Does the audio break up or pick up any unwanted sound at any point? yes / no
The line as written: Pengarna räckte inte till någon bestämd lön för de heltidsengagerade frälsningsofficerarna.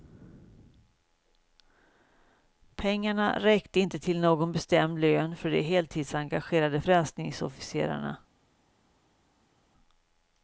no